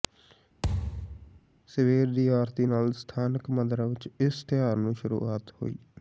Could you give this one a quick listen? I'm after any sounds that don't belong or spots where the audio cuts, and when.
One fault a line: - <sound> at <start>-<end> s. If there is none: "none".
- thud at 0.6-1.4 s